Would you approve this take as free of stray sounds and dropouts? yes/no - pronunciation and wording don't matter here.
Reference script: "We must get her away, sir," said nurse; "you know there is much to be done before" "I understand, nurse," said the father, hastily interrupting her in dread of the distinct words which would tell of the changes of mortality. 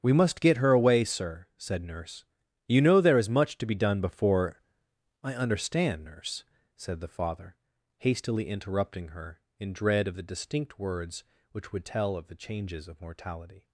yes